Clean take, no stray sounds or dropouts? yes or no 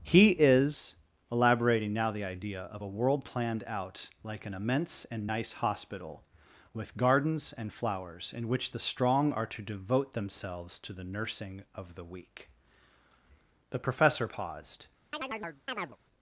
no